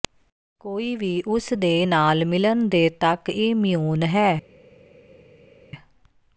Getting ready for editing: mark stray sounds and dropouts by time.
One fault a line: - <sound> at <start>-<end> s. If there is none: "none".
none